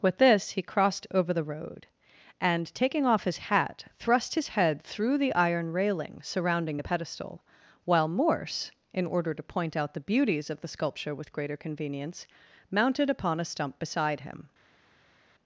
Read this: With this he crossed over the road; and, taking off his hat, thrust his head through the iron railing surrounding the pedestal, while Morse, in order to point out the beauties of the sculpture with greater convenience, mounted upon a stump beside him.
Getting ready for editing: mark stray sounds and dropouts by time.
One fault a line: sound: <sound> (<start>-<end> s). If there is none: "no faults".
no faults